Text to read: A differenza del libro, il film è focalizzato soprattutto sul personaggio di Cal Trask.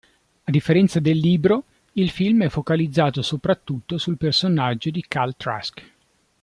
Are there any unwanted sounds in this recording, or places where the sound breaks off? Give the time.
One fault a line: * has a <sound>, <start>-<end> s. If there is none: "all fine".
all fine